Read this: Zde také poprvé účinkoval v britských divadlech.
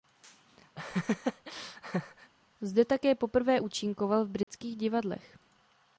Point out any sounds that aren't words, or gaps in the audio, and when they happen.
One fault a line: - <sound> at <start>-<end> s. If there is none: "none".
- laugh at 0.8-2.3 s
- dropout at 4.4-4.5 s